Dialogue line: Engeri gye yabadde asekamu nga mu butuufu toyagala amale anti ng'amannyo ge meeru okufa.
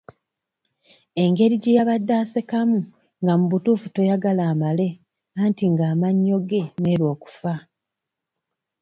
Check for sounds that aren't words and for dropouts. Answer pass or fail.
pass